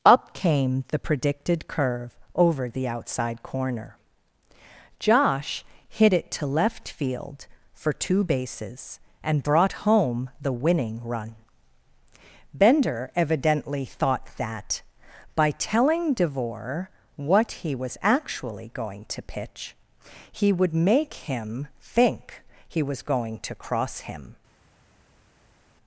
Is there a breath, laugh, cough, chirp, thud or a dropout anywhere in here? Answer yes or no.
no